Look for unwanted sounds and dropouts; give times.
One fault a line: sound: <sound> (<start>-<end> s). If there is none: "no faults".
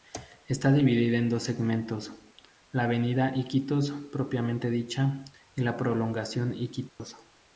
sound: dropout (6.9-7.0 s)